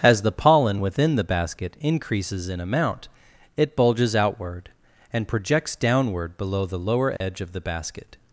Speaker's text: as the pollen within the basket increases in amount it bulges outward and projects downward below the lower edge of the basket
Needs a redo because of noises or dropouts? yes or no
yes